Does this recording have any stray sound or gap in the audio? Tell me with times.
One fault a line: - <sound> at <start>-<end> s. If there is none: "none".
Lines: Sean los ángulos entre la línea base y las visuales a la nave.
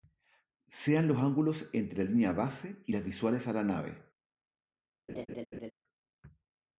- laugh at 5.1-5.7 s